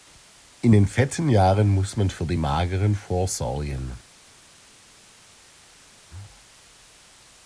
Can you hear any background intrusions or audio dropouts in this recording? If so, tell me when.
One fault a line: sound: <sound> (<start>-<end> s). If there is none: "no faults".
no faults